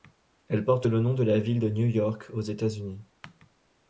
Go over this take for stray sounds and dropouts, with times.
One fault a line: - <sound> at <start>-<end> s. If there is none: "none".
none